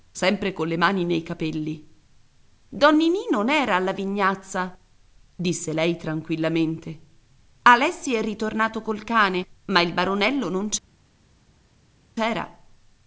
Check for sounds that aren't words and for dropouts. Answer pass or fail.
pass